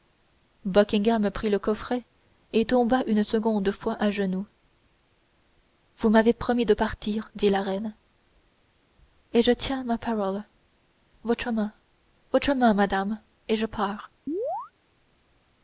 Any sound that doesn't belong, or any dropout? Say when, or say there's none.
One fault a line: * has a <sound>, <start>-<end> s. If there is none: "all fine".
* has a chirp, 14.3-14.7 s